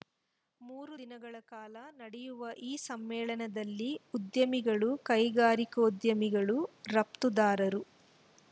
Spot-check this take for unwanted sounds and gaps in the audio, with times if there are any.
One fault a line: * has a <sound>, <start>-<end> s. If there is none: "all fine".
all fine